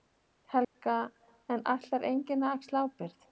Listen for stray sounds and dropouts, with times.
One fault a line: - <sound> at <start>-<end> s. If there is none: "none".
- dropout at 0.6-0.7 s